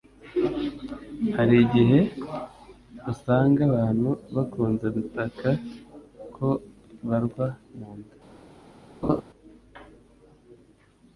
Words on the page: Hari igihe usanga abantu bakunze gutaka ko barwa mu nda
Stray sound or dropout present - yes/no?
yes